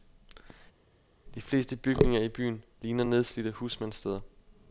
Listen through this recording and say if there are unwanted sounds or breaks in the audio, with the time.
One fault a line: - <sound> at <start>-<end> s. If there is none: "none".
none